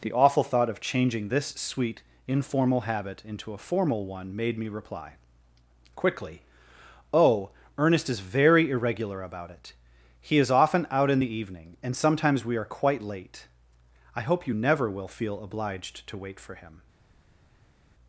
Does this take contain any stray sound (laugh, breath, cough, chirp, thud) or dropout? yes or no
no